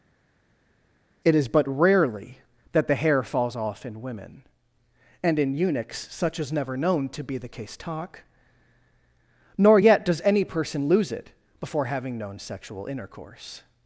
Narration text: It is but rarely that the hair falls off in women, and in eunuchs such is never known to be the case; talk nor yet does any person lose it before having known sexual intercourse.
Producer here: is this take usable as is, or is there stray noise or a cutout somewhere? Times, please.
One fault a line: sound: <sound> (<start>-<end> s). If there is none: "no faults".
no faults